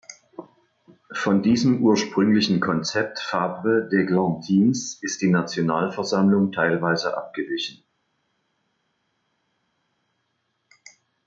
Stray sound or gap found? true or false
false